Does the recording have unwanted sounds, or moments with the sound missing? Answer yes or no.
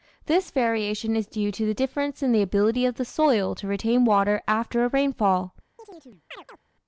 yes